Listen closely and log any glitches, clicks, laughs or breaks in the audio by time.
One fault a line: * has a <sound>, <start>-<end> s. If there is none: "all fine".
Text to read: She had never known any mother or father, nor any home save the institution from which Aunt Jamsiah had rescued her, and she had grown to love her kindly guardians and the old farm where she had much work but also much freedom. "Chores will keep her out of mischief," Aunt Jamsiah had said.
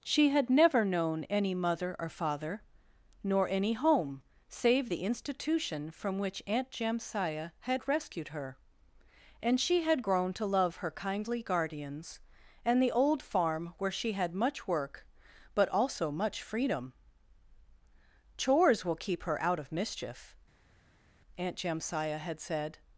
all fine